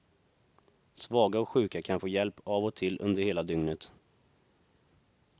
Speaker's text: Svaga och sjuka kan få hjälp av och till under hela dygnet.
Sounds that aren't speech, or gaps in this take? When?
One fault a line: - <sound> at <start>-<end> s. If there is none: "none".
none